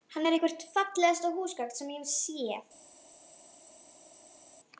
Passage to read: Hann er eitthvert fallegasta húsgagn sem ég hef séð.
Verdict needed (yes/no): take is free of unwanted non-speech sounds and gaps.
yes